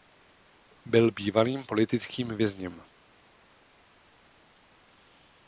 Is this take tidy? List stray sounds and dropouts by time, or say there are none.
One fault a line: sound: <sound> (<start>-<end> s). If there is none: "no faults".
no faults